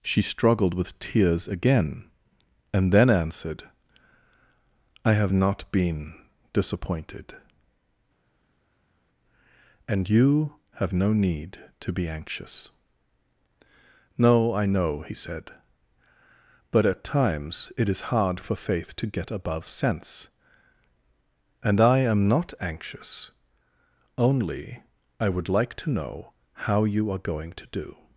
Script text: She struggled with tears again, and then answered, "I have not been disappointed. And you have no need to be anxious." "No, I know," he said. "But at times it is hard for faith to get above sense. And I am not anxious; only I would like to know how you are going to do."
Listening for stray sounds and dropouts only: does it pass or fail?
pass